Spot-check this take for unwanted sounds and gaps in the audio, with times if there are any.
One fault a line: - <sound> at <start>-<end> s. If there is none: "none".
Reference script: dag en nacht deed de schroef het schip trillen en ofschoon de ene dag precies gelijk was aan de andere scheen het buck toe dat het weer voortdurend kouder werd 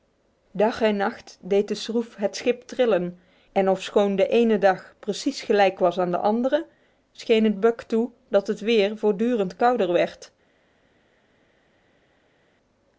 none